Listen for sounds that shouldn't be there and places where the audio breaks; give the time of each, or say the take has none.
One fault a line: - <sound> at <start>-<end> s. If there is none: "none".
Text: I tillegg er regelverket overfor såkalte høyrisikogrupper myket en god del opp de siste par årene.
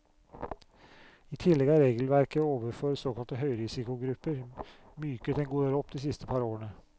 none